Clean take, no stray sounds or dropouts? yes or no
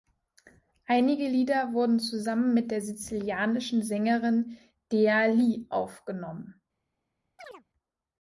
no